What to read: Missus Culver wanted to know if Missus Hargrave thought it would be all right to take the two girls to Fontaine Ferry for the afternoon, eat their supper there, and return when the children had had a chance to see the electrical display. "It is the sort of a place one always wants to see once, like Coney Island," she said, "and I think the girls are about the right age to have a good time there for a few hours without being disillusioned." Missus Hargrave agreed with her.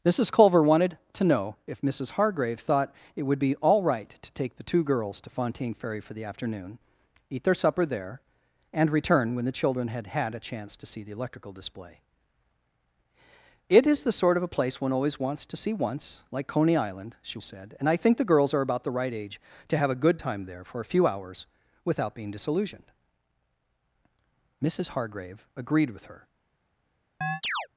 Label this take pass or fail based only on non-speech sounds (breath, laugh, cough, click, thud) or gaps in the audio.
fail